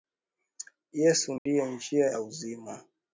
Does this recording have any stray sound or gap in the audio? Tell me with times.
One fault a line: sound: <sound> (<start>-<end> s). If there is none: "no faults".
sound: dropout (1.4-1.5 s)